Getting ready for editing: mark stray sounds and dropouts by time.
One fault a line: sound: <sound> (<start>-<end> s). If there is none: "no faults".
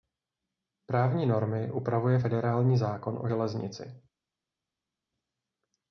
no faults